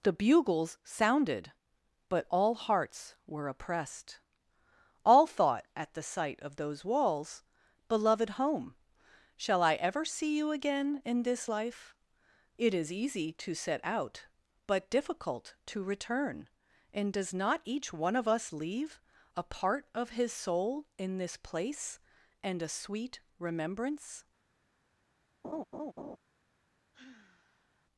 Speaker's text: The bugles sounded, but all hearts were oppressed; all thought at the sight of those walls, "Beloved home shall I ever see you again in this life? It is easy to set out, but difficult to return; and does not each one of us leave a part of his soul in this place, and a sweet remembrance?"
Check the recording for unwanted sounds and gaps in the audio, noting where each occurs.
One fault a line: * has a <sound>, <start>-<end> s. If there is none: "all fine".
* has a laugh, 25.4-26.2 s
* has a sigh, 26.9-27.8 s